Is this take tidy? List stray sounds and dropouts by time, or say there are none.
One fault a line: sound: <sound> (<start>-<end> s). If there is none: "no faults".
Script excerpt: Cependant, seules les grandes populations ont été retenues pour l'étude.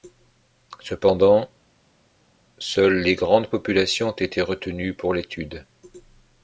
no faults